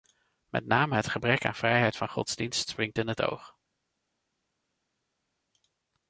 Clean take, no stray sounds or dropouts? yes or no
yes